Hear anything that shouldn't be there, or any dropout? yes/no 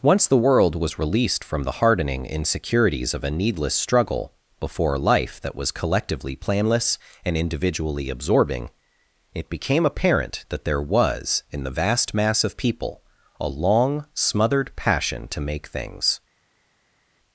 no